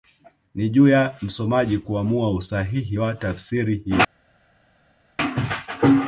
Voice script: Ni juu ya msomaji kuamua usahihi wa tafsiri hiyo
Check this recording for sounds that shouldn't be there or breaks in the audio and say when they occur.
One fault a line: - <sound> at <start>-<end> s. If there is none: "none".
none